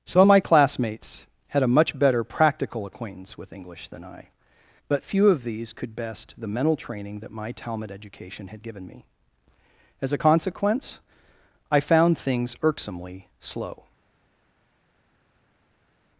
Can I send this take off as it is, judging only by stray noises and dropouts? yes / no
yes